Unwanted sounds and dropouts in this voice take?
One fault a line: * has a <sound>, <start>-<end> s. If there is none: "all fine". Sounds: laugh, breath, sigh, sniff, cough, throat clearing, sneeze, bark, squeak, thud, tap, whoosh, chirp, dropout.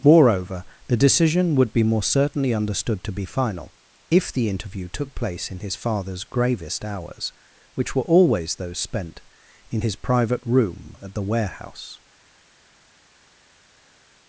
all fine